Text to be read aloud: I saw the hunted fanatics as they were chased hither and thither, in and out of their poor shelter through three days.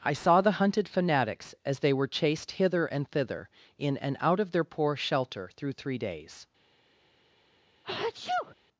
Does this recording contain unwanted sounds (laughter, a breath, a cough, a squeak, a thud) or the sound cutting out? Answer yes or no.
yes